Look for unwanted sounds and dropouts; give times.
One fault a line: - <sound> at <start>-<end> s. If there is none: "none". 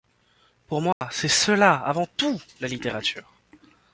- dropout at 0.9-1.0 s